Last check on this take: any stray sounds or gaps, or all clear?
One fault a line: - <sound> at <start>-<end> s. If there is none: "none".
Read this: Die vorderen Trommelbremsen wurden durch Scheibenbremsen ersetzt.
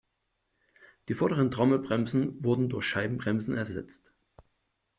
none